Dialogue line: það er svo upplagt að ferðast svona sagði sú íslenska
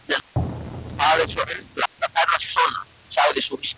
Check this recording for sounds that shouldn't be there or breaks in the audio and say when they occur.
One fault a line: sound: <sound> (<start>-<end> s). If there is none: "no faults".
sound: dropout (1.9-2.0 s)